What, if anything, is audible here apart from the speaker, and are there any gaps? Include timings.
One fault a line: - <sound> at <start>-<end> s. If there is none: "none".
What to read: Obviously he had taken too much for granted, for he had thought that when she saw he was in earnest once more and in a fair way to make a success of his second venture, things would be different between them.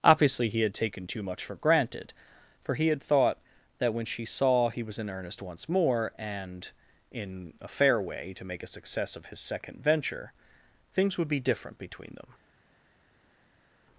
none